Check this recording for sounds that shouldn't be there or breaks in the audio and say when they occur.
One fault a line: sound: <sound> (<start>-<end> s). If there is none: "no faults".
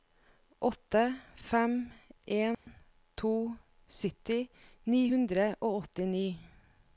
sound: dropout (2.5-2.7 s)